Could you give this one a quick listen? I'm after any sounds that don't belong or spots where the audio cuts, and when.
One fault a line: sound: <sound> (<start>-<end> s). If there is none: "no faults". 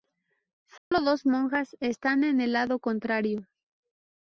sound: dropout (0.8-0.9 s)